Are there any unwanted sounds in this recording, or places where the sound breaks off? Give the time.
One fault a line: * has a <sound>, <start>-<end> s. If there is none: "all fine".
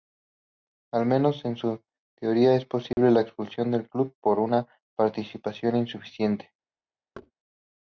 * has a dropout, 2.9-3.0 s
* has a thud, 7.1-7.3 s